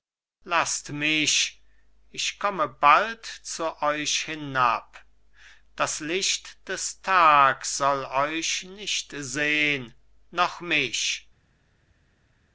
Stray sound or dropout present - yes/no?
no